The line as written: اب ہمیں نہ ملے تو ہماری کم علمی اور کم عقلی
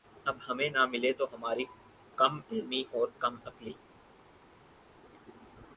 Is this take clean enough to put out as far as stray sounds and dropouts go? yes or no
yes